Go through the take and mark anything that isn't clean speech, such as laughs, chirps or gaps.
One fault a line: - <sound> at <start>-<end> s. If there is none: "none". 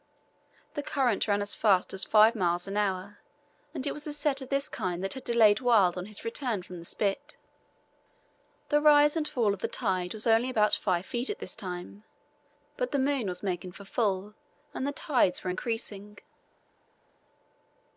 none